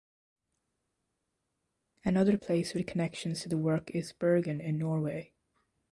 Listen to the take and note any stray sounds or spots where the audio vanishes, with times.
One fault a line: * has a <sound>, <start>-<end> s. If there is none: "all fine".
all fine